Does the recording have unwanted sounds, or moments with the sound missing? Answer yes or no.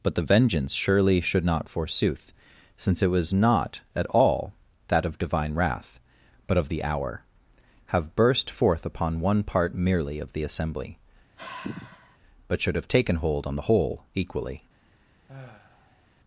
yes